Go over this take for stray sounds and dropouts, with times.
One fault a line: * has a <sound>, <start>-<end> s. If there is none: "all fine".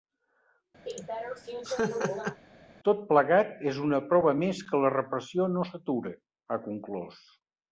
* has a laugh, 0.9-2.4 s